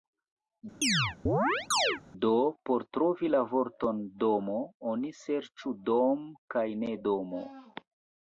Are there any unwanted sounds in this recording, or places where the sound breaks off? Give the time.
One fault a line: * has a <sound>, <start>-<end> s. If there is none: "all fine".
* has a chirp, 0.8-2.0 s